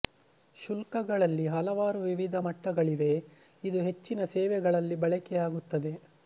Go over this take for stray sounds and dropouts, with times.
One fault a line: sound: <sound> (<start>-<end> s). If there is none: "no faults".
no faults